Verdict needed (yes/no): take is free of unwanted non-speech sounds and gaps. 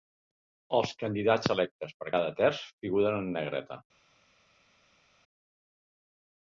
yes